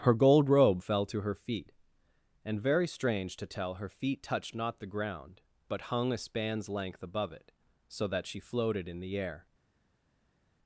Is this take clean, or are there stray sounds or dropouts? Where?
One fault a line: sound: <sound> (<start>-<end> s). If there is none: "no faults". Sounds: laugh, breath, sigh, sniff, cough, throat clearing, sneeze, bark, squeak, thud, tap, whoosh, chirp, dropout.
no faults